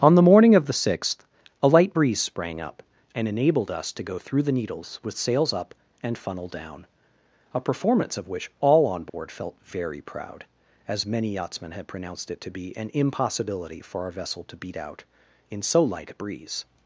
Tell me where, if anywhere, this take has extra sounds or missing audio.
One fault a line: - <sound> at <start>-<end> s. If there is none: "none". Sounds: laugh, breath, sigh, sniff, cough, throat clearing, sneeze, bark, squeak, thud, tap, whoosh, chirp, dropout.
- dropout at 9.1-9.1 s